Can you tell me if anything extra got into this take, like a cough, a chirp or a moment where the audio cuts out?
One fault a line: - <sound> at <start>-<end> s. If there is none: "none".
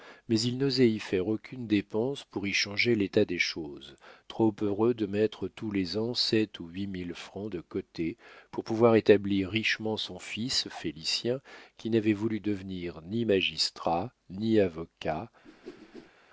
- whoosh at 15.4-16.1 s